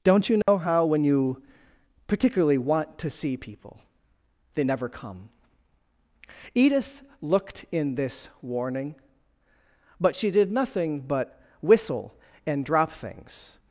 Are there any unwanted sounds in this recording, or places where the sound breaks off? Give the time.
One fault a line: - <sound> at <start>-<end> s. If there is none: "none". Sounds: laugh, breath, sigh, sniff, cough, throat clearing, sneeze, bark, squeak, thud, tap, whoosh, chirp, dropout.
- dropout at 0.4-0.5 s